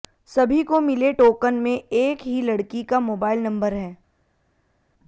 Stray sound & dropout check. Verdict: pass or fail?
pass